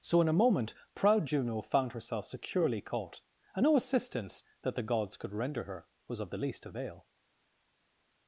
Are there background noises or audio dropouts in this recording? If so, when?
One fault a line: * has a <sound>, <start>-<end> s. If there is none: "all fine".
all fine